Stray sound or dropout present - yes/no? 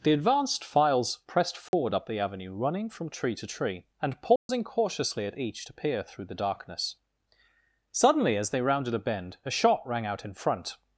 yes